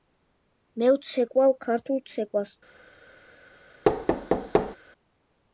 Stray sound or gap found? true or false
true